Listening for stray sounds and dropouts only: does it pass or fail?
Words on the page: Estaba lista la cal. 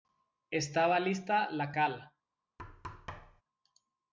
fail